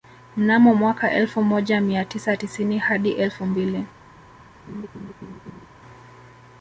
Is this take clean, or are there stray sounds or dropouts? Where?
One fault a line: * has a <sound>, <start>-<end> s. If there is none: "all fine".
* has a laugh, 4.7-5.7 s